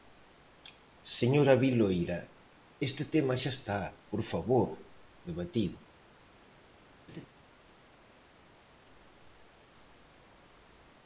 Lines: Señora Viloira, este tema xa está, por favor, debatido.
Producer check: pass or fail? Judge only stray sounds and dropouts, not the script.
fail